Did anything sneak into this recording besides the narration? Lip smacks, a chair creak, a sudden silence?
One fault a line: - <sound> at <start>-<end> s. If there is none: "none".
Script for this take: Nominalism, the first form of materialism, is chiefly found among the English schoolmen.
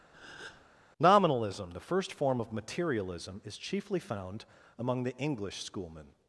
- breath at 0.1-0.6 s